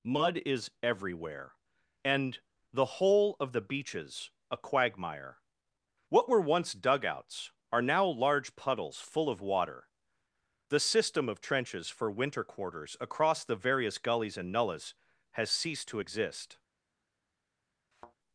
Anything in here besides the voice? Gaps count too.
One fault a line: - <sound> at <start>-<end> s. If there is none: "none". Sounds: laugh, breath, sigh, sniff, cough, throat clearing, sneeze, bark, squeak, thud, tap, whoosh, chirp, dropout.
- thud at 17.9-18.2 s